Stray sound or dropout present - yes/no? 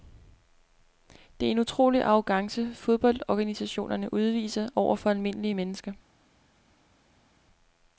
no